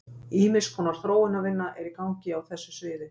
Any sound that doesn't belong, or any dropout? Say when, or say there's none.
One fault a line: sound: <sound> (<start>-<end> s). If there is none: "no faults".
no faults